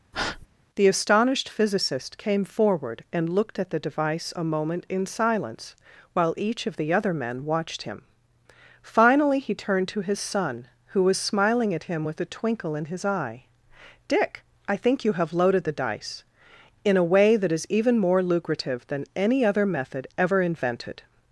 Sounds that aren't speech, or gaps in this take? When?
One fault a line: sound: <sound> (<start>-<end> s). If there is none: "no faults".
sound: breath (0.1-0.5 s)